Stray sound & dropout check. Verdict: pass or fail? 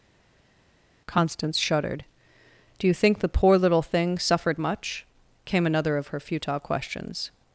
pass